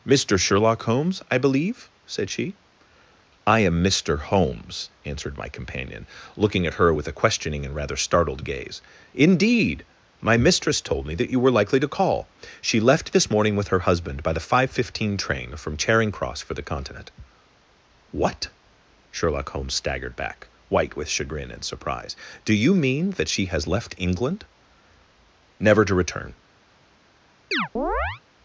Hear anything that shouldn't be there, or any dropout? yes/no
yes